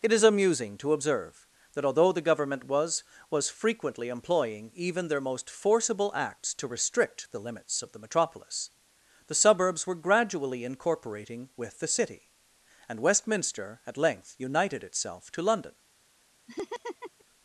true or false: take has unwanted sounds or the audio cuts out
true